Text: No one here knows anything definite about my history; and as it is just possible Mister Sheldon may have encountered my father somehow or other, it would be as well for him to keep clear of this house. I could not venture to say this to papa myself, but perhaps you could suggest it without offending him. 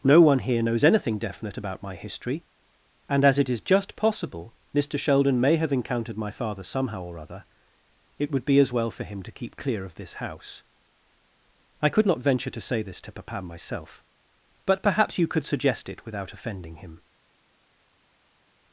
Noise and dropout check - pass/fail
pass